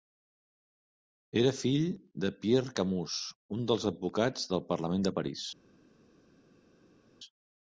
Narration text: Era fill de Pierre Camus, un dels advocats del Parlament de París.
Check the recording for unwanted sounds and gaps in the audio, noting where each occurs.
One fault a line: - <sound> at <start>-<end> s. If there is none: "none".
none